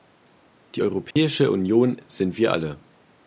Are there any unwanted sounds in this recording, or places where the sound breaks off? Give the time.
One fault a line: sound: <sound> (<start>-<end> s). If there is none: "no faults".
sound: dropout (1.1-1.2 s)